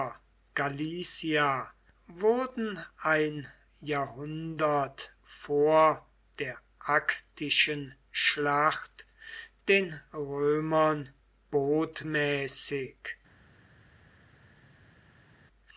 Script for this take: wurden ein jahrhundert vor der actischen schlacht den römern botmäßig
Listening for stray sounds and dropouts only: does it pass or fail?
pass